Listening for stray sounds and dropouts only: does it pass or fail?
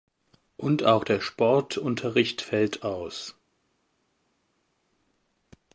pass